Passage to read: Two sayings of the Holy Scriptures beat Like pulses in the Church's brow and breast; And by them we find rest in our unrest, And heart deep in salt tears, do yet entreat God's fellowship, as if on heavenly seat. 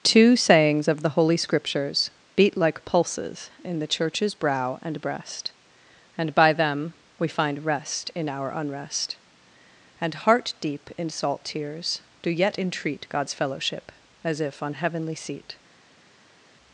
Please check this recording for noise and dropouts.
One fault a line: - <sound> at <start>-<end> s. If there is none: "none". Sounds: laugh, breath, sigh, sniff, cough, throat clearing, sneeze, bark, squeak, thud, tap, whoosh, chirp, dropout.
none